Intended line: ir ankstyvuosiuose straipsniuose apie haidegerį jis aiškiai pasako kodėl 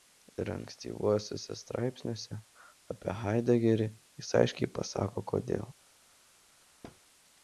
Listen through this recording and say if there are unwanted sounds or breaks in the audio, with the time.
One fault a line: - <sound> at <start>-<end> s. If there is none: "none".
- thud at 6.8-7.0 s